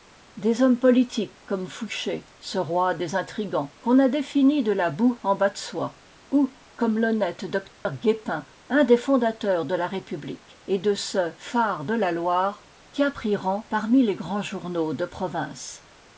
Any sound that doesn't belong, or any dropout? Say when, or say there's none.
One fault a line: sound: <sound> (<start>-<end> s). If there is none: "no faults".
sound: dropout (7.7-7.9 s)